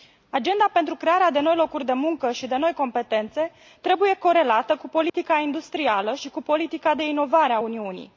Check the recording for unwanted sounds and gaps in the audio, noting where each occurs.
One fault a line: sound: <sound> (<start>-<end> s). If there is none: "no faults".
sound: dropout (5.1-5.1 s)